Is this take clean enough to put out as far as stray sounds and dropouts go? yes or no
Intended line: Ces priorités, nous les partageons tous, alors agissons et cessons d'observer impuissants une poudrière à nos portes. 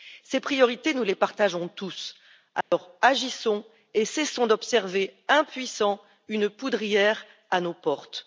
no